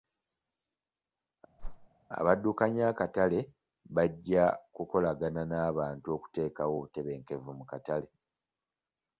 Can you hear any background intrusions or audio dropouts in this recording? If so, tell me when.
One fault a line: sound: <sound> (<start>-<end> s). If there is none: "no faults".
sound: whoosh (1.6-1.9 s)